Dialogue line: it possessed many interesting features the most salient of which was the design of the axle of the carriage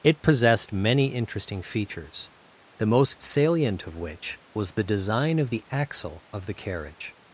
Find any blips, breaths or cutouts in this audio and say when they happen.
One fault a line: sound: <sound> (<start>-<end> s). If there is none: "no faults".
no faults